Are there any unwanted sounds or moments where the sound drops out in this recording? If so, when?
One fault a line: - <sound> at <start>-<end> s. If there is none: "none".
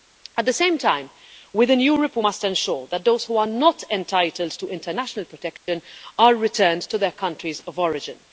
- dropout at 5.6-5.7 s